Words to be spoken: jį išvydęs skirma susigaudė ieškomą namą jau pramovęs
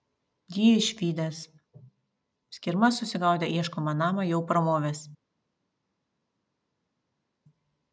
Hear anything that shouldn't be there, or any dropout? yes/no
no